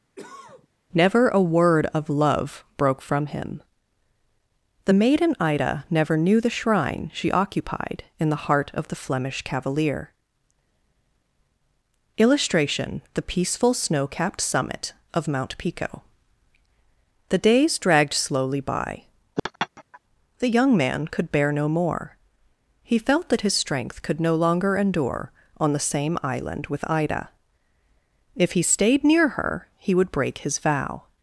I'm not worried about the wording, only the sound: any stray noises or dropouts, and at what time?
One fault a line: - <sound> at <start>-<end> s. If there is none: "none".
- cough at 0.2-0.7 s
- laugh at 19.4-20.0 s